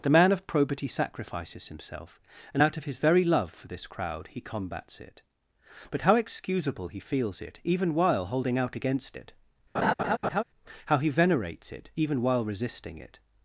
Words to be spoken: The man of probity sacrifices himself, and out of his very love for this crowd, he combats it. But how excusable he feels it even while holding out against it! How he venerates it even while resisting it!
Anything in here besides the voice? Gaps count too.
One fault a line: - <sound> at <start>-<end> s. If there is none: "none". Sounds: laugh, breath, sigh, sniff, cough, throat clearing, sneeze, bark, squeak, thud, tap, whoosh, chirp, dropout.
- laugh at 9.7-10.4 s